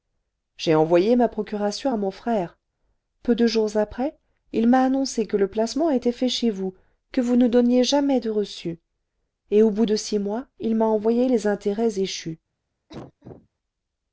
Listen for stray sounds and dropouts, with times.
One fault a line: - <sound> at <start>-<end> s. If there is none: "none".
- cough at 12.9-13.5 s